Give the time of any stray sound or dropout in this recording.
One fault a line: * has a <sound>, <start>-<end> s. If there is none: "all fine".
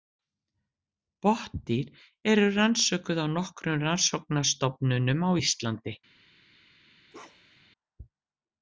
* has a bark, 7.1-7.7 s